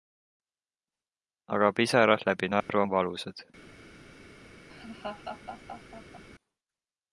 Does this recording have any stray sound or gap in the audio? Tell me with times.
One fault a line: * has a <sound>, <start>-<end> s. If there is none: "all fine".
* has a dropout, 2.6-2.7 s
* has a laugh, 4.7-6.2 s